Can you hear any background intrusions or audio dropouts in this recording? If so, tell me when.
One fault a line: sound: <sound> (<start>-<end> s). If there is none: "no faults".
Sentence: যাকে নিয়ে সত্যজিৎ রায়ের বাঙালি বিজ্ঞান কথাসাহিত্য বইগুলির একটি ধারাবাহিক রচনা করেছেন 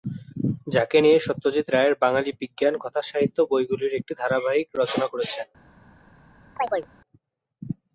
sound: chirp (6.6-6.9 s)